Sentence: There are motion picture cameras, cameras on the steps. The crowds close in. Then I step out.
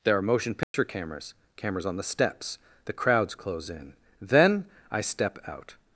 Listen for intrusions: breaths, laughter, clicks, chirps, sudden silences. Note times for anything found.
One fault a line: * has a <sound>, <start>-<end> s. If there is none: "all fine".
* has a dropout, 0.6-0.7 s